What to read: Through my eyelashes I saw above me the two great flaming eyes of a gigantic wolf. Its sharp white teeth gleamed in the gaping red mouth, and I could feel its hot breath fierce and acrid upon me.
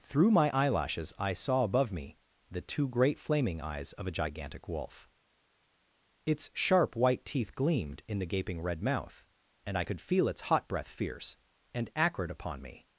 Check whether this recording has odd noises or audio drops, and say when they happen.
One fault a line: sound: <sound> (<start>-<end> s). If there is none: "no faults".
no faults